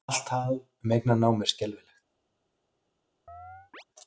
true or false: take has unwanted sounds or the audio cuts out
true